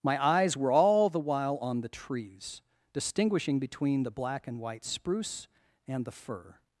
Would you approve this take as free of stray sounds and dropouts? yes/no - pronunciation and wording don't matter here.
yes